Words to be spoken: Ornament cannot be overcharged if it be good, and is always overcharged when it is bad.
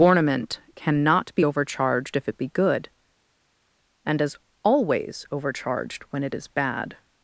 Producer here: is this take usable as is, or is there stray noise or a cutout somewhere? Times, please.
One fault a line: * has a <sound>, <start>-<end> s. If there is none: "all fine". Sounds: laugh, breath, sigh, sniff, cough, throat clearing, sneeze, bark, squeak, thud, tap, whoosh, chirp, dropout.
all fine